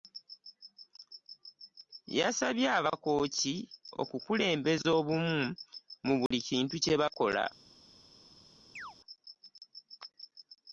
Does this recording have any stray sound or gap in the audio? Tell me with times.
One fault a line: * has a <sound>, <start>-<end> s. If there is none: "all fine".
* has a dropout, 6.3-6.3 s
* has a chirp, 8.8-9.0 s